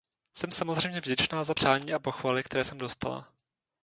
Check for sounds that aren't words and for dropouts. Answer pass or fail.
pass